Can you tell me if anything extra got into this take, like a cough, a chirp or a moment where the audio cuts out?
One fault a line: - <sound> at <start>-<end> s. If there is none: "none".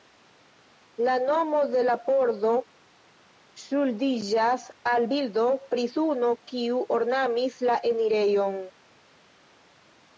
none